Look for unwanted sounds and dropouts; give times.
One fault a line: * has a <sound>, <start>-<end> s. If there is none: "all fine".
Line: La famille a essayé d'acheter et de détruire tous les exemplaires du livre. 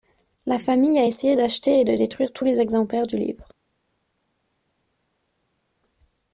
all fine